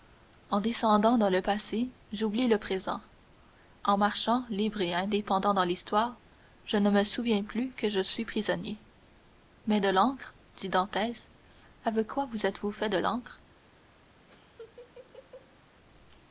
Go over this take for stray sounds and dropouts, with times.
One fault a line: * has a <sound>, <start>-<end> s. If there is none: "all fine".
* has a laugh, 14.3-15.6 s